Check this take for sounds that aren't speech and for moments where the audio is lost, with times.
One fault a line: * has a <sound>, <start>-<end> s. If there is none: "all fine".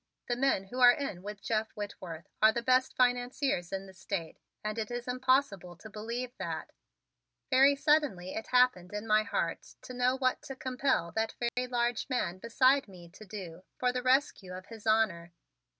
* has a dropout, 11.5-11.6 s